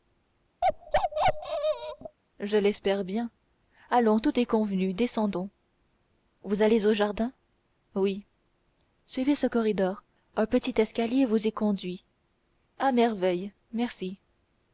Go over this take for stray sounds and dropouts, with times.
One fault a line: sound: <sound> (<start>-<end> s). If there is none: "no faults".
sound: bark (0.6-2.2 s)